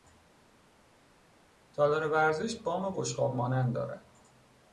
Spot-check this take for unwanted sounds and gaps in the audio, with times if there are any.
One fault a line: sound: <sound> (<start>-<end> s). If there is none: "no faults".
no faults